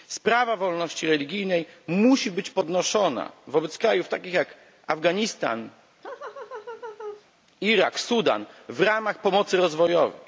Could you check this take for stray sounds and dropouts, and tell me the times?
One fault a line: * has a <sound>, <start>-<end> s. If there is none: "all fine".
* has a laugh, 6.0-7.3 s